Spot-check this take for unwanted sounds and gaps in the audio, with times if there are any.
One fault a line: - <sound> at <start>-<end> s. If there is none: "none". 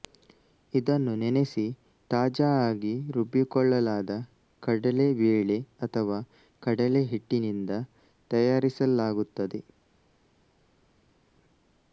none